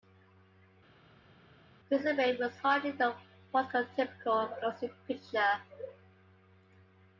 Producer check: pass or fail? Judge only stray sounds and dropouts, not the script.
pass